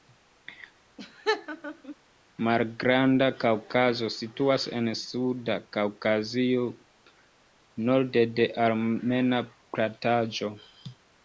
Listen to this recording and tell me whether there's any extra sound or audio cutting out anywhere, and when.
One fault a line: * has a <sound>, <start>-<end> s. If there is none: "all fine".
* has a laugh, 1.0-2.0 s